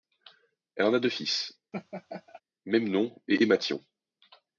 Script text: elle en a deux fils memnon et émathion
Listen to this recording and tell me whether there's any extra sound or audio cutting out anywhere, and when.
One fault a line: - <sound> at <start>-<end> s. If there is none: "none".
- laugh at 1.7-2.4 s